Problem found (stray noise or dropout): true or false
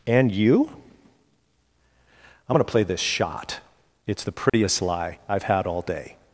true